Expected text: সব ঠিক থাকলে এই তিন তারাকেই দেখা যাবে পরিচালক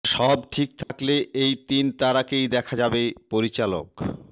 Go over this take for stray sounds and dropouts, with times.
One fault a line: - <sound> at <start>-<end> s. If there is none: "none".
- dropout at 0.8-0.9 s